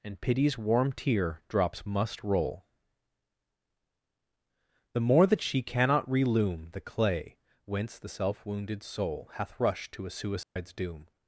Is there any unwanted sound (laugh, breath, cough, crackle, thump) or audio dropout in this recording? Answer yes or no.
yes